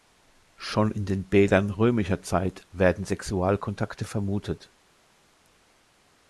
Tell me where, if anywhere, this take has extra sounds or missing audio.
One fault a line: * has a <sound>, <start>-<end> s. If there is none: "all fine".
all fine